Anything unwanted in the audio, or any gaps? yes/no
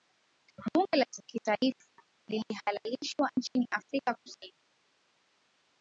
no